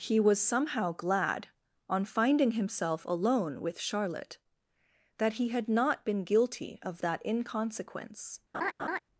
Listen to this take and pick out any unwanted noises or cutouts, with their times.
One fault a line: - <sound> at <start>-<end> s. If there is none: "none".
- laugh at 8.5-9.0 s